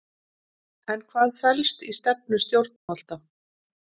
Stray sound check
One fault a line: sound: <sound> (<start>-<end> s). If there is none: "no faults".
sound: dropout (2.8-2.9 s)